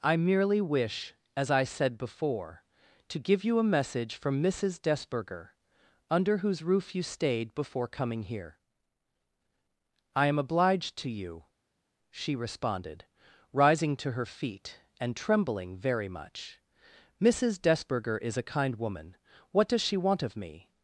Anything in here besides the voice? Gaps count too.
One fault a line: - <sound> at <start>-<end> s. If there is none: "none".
none